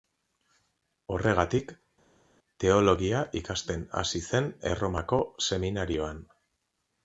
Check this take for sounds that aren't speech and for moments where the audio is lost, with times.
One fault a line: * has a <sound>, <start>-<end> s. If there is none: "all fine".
all fine